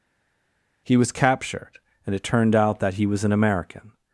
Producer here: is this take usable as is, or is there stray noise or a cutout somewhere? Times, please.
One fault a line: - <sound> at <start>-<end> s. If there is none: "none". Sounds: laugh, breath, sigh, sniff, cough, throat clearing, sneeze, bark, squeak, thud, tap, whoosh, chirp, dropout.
none